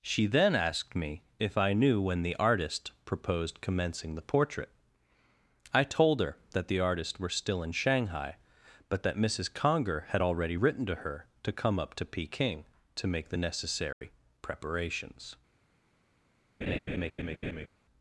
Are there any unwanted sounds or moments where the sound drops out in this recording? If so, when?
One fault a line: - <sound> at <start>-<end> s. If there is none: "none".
- dropout at 13.9-14.0 s
- laugh at 16.6-17.7 s